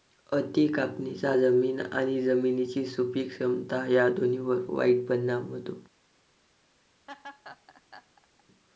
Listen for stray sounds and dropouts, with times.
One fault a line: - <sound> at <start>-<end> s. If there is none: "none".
- laugh at 7.1-8.4 s